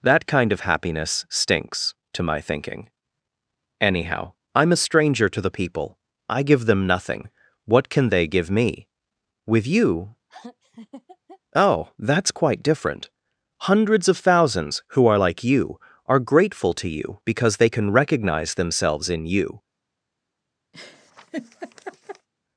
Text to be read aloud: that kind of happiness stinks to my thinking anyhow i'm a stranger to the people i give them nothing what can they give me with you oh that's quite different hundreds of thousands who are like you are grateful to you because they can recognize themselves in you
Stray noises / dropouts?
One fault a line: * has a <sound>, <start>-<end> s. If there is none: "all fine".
* has a laugh, 10.3-11.4 s
* has a laugh, 20.7-22.3 s